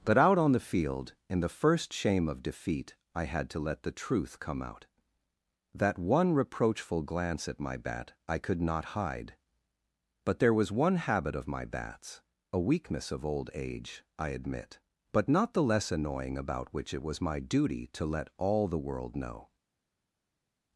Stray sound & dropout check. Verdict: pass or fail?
pass